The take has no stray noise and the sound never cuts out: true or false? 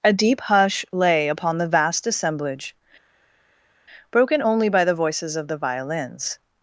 true